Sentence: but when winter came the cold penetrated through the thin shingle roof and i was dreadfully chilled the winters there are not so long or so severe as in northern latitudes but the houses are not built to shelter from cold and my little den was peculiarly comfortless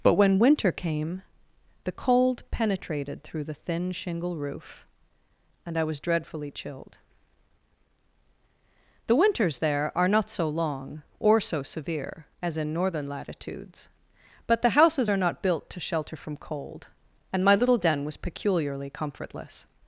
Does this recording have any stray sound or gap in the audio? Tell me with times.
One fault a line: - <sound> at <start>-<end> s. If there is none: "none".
none